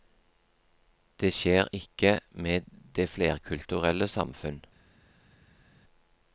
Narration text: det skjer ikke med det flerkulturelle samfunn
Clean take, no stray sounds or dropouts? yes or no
yes